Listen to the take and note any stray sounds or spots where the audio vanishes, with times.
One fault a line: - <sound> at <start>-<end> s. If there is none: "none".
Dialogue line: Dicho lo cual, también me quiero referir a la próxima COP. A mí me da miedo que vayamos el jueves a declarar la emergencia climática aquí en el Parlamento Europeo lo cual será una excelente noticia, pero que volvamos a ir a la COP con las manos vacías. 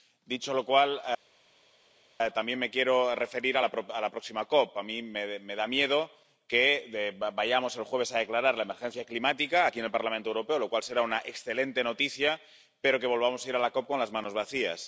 none